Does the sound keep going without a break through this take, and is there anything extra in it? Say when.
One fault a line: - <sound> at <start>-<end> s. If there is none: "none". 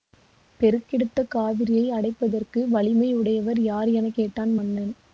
none